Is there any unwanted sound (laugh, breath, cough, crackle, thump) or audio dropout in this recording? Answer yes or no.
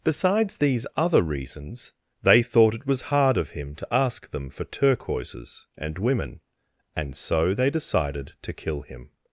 no